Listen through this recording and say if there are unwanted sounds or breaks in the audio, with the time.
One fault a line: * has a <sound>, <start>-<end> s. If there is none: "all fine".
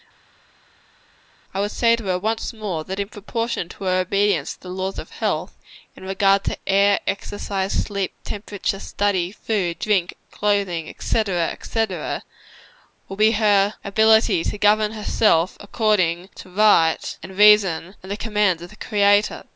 all fine